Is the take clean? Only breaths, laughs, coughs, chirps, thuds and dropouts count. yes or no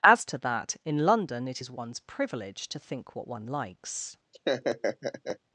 no